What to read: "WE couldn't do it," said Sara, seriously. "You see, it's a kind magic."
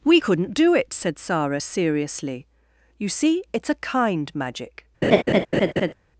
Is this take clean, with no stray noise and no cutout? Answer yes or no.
no